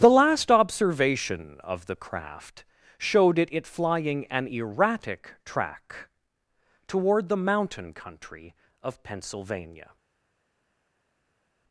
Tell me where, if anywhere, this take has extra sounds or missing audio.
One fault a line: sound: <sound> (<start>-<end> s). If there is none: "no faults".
no faults